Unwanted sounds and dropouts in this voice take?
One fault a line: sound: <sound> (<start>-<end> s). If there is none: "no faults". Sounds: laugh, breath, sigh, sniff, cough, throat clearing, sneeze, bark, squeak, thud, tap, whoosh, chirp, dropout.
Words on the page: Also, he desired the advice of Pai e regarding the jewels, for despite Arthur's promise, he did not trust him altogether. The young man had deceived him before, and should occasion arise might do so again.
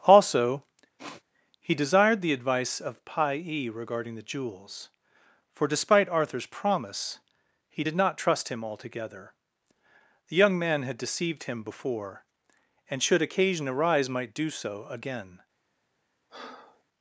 sound: sniff (1.0-1.2 s)
sound: breath (16.3-16.8 s)